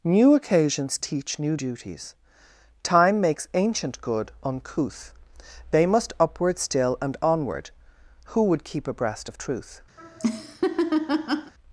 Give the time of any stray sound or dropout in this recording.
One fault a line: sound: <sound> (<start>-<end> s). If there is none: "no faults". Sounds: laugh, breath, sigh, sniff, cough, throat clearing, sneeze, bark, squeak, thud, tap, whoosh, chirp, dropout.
sound: laugh (10.0-11.5 s)